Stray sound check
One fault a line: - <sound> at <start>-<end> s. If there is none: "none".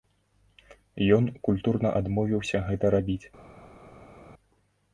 none